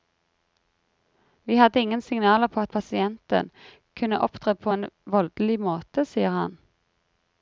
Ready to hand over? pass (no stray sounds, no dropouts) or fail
pass